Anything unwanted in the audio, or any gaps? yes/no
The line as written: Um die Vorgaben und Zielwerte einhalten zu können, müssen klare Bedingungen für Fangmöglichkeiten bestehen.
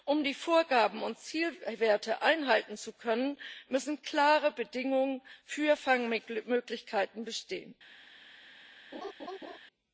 yes